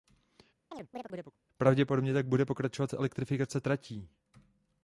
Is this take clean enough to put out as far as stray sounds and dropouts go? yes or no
no